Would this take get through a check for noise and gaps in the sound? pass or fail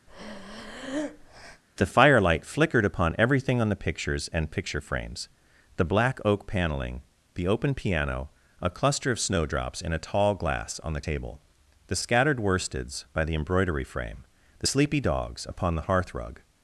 fail